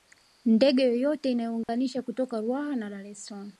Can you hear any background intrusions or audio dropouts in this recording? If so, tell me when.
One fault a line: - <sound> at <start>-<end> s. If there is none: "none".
- dropout at 1.6-1.7 s